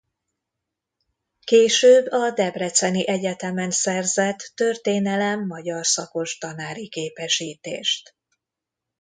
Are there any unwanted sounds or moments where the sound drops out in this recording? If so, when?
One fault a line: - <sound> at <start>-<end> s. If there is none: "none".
none